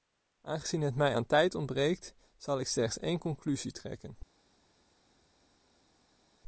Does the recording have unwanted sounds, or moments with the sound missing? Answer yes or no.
no